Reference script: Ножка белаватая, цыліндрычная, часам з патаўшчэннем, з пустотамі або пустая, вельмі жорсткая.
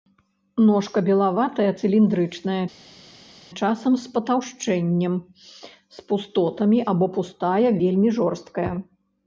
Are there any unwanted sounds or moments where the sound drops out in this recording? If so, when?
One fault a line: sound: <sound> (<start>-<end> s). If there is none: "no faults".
no faults